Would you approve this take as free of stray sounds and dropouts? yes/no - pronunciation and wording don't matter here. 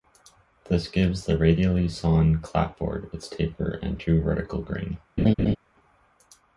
no